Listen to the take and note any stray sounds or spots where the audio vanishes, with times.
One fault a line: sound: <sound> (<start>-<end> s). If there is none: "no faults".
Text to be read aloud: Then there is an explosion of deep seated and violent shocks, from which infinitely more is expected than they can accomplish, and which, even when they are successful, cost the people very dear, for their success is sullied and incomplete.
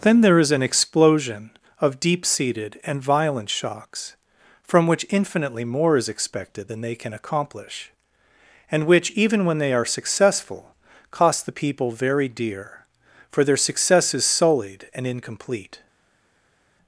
no faults